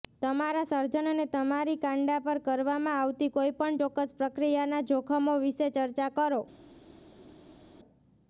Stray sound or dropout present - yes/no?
no